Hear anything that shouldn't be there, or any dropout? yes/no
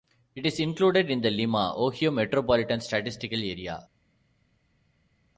no